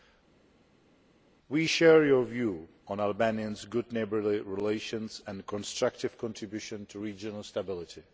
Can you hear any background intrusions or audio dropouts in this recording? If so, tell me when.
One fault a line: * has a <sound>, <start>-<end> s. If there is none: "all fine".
all fine